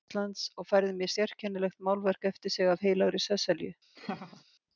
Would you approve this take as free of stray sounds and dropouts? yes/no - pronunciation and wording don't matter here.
no